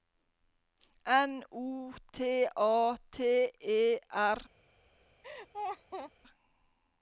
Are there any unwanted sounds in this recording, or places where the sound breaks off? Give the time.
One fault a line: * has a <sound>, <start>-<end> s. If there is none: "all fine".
* has a laugh, 5.2-6.1 s